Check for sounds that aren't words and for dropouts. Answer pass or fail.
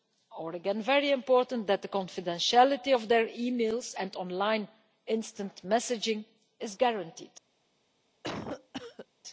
fail